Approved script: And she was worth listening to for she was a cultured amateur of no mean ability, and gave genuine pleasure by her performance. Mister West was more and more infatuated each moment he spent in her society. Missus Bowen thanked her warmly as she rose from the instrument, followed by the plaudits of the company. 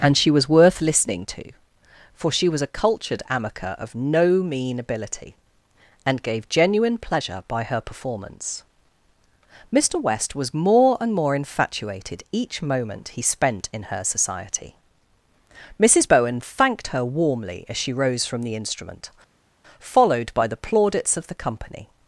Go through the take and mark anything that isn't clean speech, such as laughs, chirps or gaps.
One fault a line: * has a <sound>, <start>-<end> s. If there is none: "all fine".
all fine